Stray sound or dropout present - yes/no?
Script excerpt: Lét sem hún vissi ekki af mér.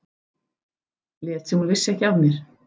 no